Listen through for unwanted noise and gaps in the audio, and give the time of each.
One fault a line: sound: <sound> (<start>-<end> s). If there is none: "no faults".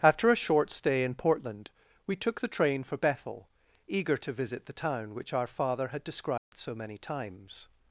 sound: dropout (6.4-6.5 s)